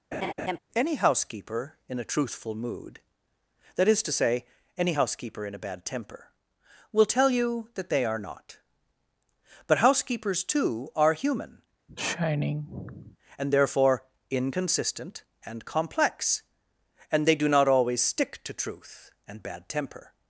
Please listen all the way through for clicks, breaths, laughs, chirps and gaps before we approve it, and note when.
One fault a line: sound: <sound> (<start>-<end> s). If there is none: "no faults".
sound: laugh (0.1-0.6 s)
sound: sigh (11.9-13.2 s)